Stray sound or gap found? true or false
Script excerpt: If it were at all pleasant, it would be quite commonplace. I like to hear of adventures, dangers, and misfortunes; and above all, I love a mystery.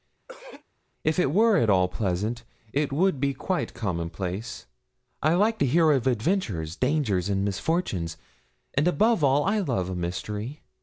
true